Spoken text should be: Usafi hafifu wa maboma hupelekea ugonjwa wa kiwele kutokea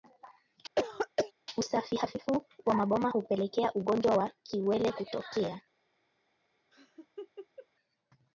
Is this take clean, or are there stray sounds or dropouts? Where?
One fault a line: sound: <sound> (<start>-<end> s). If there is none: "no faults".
sound: throat clearing (0.8-1.3 s)
sound: laugh (6.7-7.7 s)